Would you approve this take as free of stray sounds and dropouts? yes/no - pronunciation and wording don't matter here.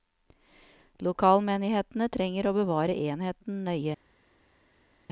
yes